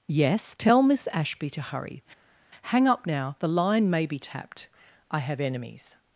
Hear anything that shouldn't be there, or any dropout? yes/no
no